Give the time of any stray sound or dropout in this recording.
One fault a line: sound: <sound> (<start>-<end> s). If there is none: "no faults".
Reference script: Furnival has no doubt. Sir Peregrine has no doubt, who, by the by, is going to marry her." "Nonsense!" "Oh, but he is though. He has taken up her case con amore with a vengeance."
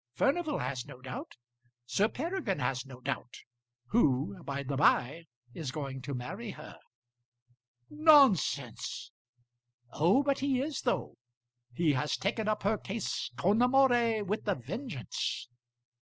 no faults